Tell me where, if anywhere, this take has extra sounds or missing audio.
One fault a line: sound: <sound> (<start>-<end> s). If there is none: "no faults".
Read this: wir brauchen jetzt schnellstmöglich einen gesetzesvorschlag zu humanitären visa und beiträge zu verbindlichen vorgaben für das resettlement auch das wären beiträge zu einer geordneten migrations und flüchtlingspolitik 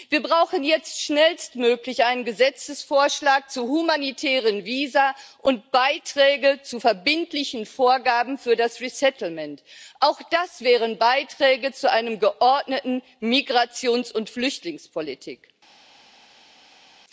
no faults